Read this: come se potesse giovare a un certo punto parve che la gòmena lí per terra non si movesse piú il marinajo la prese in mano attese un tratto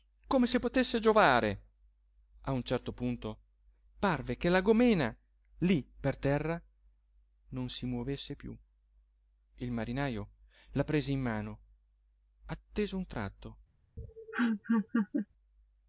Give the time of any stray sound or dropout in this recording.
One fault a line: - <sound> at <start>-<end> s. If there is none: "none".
- laugh at 14.0-15.3 s